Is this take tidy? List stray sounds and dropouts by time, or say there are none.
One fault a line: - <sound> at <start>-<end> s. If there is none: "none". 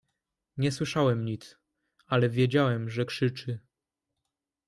none